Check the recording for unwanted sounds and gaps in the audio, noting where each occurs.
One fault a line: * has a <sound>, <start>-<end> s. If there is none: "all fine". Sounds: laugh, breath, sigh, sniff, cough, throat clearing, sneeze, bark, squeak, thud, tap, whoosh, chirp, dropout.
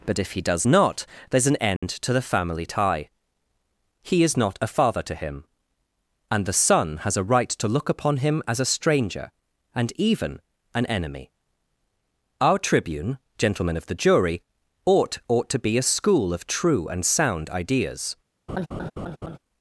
* has a dropout, 1.8-1.8 s
* has a laugh, 18.5-19.4 s